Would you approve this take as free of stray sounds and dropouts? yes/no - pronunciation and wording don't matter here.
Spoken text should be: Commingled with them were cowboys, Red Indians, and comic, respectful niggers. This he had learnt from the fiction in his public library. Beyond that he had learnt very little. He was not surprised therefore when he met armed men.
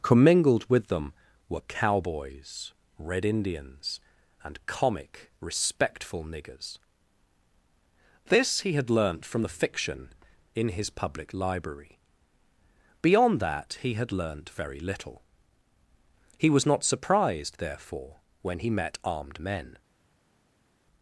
yes